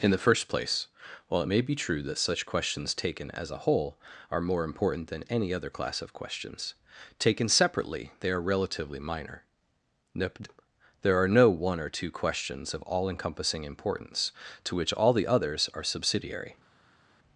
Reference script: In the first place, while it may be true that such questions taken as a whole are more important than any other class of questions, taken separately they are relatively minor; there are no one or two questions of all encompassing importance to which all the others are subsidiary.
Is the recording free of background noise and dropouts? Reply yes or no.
yes